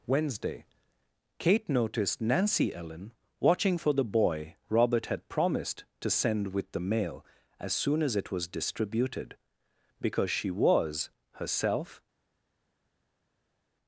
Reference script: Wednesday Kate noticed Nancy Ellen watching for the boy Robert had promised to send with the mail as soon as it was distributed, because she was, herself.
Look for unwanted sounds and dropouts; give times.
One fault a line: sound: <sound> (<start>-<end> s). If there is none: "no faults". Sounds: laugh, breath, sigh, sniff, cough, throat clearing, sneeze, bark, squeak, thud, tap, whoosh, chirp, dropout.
no faults